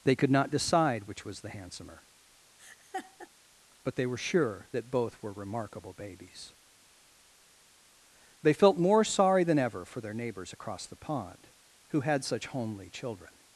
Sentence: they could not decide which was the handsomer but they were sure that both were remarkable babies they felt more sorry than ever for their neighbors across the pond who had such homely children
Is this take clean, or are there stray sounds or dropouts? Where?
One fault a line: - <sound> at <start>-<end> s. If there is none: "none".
- laugh at 2.6-3.3 s